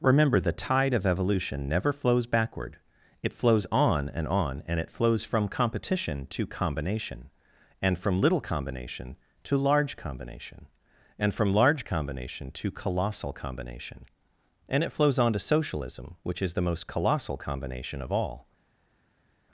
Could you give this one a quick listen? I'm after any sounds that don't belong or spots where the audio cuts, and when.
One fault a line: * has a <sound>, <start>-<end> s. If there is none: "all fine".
all fine